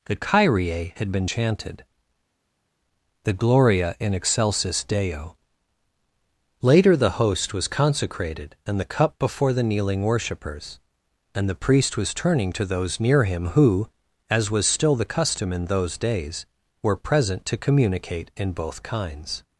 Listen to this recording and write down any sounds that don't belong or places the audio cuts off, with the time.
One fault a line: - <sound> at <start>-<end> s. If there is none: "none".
none